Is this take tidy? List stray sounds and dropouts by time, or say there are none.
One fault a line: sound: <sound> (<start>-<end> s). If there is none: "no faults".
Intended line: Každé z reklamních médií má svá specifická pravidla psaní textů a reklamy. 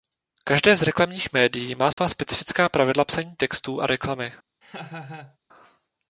sound: dropout (1.9-2.0 s)
sound: laugh (4.6-5.4 s)